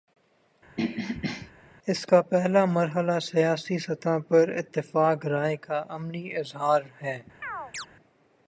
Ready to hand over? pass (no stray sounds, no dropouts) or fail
fail